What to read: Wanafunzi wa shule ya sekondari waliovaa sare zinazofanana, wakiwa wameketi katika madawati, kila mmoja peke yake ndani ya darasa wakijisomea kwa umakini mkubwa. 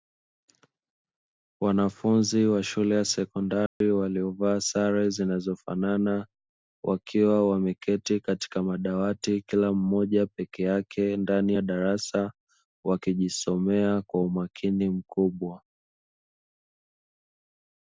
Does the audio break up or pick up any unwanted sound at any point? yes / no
yes